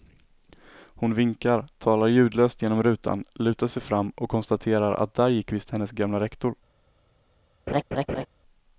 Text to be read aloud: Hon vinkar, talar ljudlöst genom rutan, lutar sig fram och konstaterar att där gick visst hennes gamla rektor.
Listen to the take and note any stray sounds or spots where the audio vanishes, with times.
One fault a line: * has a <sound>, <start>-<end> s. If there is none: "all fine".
* has a laugh, 7.7-8.3 s